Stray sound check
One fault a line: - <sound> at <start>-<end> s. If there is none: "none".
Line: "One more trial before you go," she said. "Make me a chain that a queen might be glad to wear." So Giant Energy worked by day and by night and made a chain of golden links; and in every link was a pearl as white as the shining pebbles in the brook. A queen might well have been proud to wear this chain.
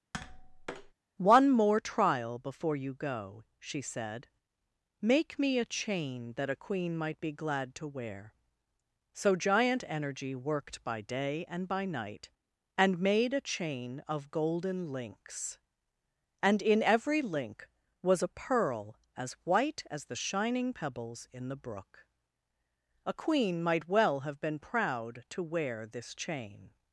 - tap at 0.1-0.9 s